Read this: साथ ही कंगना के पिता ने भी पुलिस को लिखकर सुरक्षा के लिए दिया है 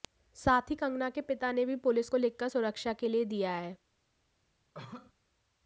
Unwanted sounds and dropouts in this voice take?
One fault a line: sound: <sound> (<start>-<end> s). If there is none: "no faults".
sound: cough (4.7-5.1 s)